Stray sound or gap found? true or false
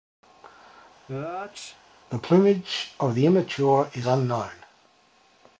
true